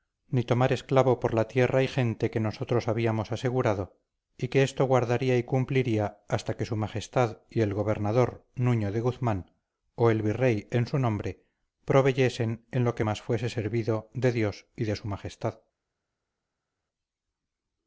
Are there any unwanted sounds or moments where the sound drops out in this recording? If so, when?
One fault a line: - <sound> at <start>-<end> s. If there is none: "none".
none